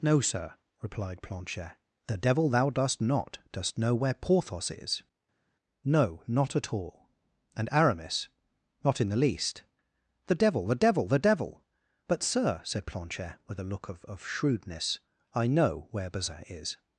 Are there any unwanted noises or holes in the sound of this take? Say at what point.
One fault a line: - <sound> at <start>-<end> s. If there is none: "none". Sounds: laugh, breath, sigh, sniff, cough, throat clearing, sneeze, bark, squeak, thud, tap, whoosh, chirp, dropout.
none